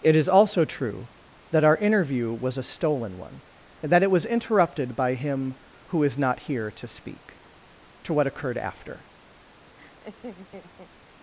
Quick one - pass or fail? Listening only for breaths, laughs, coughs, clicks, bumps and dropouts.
fail